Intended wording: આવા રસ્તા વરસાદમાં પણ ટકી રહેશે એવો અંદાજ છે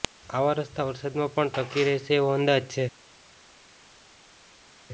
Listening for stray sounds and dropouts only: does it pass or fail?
pass